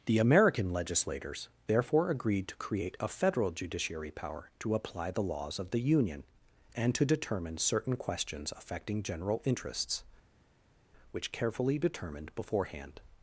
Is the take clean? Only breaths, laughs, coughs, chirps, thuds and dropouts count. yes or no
yes